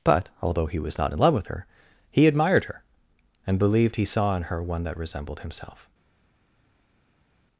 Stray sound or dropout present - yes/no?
no